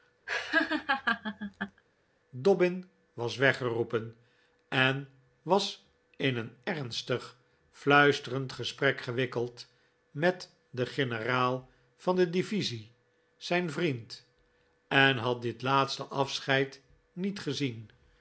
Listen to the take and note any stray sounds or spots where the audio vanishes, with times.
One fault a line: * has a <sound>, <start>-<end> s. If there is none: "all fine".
* has a laugh, 0.3-1.8 s